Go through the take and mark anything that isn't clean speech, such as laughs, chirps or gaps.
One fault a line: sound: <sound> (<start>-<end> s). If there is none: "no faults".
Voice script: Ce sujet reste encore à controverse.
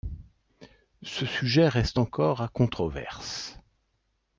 no faults